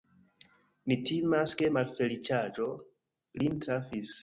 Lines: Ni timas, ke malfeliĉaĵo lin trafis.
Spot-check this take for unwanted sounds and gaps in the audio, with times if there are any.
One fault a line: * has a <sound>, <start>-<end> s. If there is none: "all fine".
all fine